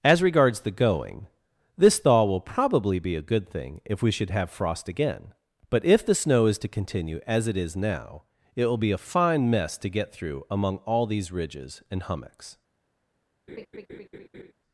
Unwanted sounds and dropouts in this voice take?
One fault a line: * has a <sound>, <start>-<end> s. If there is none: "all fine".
* has a laugh, 13.5-14.5 s